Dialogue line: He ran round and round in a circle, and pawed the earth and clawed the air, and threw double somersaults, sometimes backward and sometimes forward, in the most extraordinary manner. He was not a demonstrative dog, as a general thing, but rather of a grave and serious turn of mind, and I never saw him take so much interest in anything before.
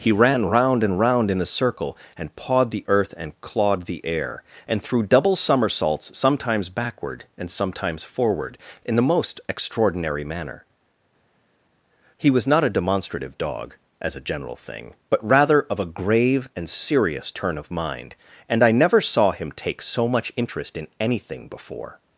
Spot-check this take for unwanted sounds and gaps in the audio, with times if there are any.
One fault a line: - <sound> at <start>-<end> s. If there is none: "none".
none